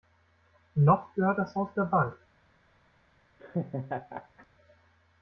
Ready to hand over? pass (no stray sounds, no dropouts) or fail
fail